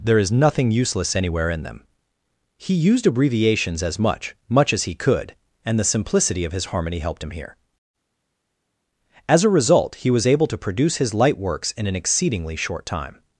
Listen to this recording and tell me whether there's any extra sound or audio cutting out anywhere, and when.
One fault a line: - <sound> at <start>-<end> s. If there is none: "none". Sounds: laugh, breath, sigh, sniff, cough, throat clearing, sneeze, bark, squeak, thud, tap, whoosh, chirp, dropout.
none